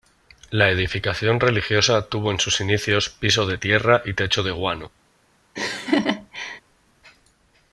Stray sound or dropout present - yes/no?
yes